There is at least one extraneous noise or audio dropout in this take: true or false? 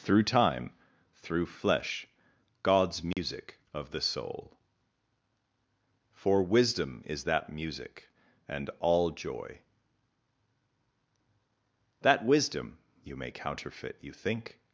true